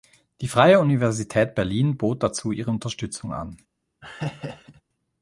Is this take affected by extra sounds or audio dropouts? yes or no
yes